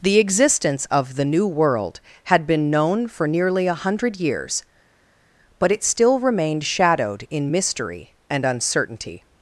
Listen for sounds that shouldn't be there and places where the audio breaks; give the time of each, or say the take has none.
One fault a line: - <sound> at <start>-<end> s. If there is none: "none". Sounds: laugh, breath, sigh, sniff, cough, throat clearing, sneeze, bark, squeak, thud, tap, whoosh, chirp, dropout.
none